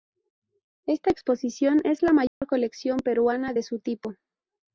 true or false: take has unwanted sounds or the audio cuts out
true